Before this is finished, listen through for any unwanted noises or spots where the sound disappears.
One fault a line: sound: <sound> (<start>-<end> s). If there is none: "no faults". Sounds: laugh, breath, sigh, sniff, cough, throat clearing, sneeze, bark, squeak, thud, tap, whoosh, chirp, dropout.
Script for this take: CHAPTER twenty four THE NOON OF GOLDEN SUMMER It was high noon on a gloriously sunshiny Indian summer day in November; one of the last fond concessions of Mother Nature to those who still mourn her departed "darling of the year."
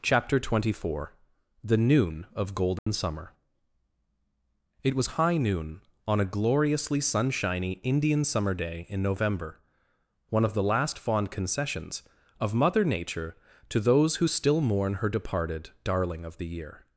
sound: dropout (2.8-2.9 s)